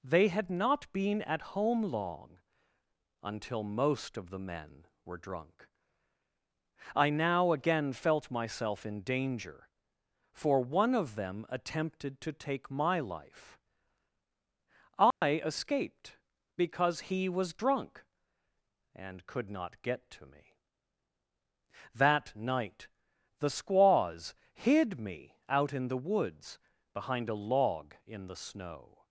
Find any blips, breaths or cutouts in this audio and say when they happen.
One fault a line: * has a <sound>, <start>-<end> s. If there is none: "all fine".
* has a dropout, 15.1-15.2 s